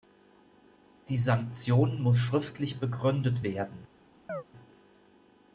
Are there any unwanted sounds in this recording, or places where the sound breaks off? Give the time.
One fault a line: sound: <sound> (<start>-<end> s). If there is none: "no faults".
sound: chirp (4.3-4.4 s)